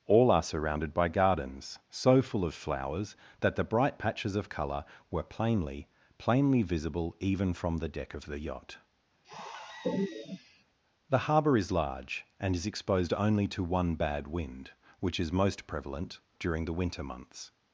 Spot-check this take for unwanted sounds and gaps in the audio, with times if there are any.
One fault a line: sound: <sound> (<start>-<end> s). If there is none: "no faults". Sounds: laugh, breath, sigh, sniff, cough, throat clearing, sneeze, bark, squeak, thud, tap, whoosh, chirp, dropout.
sound: sigh (9.2-10.6 s)